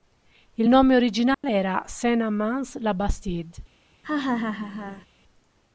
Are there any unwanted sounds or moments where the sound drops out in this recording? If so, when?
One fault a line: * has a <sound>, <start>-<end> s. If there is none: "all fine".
* has a dropout, 1.3-1.4 s
* has a laugh, 4.0-5.1 s